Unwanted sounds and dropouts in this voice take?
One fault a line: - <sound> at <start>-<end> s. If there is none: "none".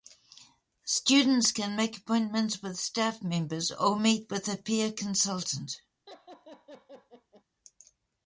- laugh at 6.1-7.4 s